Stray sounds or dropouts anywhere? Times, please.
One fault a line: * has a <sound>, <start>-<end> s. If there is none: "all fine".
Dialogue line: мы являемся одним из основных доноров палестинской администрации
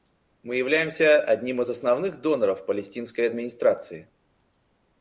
all fine